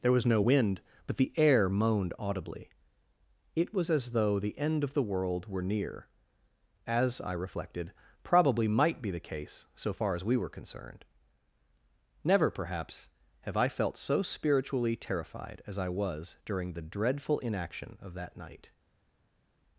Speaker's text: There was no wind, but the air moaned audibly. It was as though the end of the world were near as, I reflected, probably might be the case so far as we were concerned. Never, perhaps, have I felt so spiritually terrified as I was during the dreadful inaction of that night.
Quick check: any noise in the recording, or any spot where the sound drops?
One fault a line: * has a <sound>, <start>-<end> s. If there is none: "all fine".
all fine